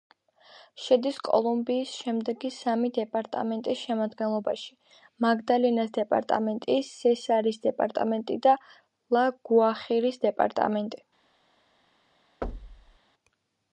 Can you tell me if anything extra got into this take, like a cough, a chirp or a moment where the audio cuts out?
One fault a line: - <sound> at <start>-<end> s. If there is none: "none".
- thud at 12.4-13.0 s